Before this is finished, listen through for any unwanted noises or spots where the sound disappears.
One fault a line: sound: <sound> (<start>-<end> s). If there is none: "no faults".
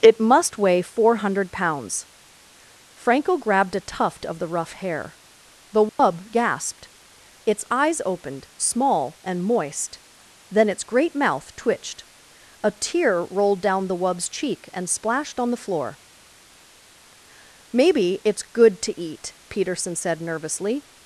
sound: dropout (5.9-6.0 s)